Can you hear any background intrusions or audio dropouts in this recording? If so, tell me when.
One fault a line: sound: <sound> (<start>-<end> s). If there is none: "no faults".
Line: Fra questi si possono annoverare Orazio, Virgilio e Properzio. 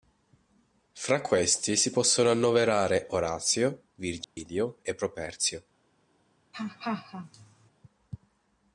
sound: dropout (4.2-4.4 s)
sound: laugh (6.5-7.7 s)